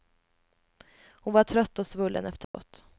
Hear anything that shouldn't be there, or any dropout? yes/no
yes